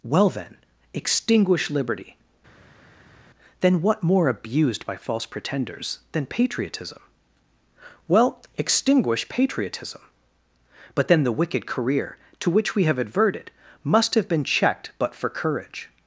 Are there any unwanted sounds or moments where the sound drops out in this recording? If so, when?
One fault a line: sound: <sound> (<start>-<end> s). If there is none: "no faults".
no faults